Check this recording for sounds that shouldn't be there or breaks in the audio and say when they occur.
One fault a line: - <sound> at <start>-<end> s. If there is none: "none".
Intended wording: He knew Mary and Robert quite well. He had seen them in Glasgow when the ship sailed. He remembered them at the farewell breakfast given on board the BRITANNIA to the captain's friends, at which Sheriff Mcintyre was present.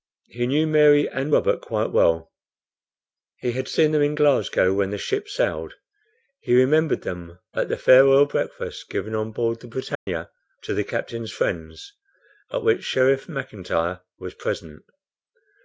- dropout at 10.0-10.1 s